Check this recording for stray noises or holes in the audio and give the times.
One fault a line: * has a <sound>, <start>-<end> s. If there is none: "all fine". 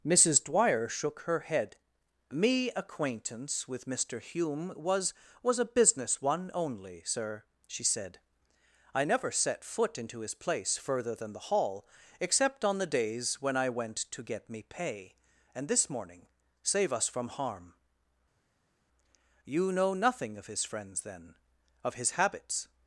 all fine